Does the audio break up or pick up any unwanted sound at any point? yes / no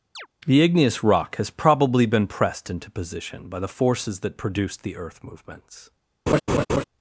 yes